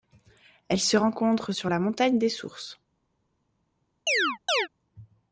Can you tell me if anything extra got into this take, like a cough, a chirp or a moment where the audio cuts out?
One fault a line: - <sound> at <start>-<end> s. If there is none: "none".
- chirp at 4.1-4.7 s